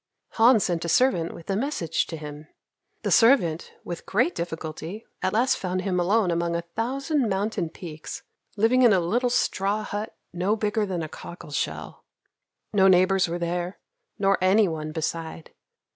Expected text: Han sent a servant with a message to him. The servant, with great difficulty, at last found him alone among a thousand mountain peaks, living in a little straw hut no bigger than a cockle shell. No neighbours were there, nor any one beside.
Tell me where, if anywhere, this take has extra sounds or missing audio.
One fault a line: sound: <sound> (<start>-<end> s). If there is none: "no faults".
no faults